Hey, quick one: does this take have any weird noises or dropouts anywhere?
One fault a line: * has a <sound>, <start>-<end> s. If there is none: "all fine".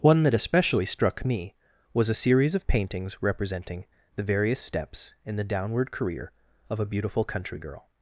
all fine